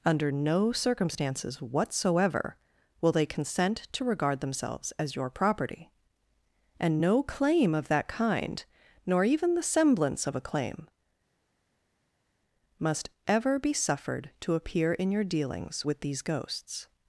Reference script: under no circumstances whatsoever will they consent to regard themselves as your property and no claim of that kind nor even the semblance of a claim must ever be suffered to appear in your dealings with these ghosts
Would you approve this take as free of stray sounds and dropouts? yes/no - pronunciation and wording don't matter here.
yes